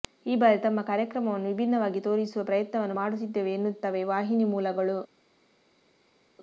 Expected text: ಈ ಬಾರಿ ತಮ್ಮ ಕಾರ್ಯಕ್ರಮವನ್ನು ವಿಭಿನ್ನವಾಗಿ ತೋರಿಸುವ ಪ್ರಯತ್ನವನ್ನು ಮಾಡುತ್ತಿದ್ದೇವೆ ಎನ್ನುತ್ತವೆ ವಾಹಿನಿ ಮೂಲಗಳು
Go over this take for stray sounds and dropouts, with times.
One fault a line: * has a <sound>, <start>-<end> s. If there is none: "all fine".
all fine